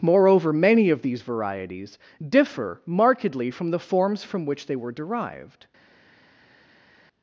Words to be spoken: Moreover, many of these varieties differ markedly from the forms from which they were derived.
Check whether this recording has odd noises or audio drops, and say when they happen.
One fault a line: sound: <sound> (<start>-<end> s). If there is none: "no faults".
no faults